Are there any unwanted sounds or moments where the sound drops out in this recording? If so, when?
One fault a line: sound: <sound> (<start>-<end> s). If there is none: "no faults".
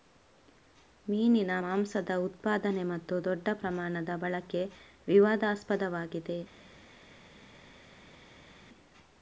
no faults